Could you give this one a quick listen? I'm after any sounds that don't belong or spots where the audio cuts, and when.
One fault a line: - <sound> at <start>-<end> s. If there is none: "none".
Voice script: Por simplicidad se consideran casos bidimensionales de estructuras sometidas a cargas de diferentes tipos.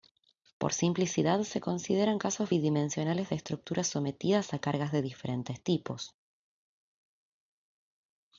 none